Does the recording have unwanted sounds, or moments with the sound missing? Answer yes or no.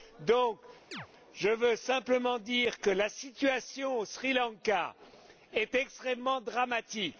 yes